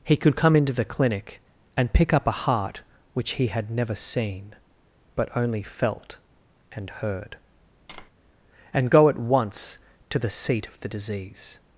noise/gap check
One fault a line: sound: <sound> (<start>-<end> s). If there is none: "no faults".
sound: tap (7.9-8.1 s)